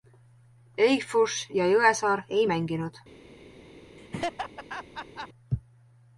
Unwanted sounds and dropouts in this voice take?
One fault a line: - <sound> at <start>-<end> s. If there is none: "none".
- laugh at 4.0-5.3 s